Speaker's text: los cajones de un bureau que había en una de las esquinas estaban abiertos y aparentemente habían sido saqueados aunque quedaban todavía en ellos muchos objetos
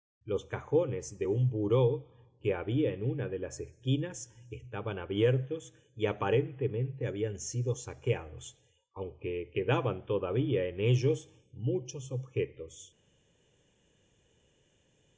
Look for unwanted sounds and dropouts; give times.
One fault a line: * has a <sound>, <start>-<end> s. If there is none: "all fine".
all fine